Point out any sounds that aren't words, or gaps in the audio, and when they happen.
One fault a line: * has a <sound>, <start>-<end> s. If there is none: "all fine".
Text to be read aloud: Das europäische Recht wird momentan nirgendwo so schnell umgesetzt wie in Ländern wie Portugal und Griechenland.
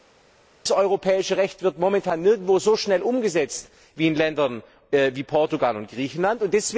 all fine